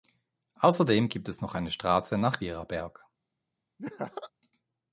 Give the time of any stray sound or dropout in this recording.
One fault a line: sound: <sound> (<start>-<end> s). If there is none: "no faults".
sound: laugh (3.8-4.3 s)